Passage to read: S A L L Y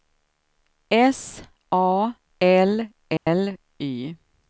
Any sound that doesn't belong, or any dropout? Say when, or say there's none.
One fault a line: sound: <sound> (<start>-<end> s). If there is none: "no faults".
sound: dropout (3.2-3.3 s)